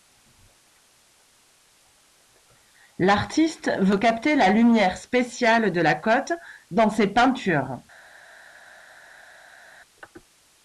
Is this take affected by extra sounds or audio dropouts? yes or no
no